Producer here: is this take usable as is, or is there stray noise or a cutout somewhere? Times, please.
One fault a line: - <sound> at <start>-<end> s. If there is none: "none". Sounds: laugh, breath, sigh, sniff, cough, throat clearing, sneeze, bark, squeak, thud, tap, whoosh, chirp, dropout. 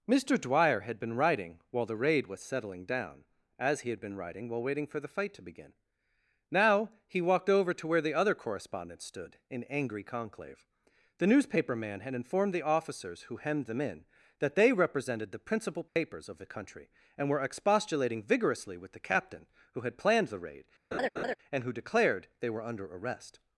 - dropout at 15.9-16.0 s
- laugh at 20.9-21.4 s